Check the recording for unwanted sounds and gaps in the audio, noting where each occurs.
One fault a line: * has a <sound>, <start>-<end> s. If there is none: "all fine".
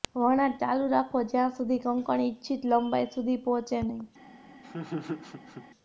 * has a laugh, 4.6-5.7 s